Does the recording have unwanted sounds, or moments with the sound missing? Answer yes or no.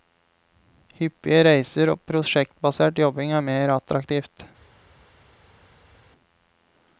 no